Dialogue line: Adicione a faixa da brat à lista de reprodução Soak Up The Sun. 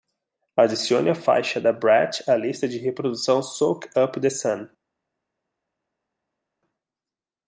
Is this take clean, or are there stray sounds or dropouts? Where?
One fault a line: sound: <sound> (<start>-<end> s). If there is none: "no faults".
no faults